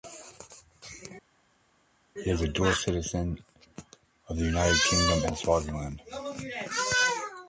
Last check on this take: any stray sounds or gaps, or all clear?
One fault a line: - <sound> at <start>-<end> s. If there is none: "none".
none